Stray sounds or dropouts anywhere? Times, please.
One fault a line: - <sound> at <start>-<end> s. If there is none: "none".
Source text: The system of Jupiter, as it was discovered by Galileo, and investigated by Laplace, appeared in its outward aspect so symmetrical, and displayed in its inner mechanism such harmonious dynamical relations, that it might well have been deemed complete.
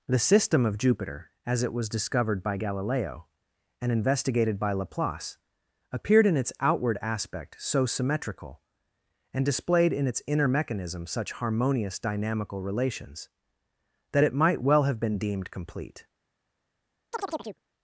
- chirp at 17.1-17.6 s